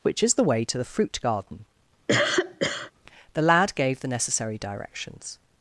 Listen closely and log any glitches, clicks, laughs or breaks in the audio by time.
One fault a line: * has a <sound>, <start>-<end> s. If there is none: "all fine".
* has a cough, 2.1-2.9 s